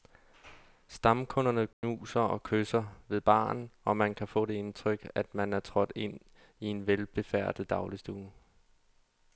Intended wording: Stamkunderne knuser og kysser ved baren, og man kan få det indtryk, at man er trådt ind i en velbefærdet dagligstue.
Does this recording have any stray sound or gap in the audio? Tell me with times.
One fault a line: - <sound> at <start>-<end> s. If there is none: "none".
- dropout at 1.7-1.8 s